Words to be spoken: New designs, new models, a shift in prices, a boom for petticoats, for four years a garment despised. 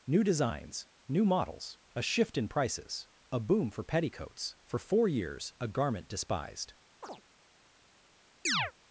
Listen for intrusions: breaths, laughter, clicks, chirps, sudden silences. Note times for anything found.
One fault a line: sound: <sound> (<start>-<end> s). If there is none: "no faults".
sound: chirp (7.0-7.2 s)
sound: chirp (8.4-8.7 s)